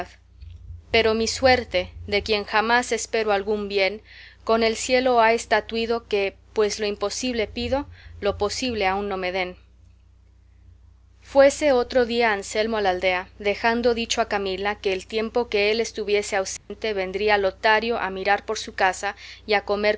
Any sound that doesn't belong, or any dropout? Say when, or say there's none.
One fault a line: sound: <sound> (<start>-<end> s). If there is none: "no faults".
sound: dropout (16.6-16.7 s)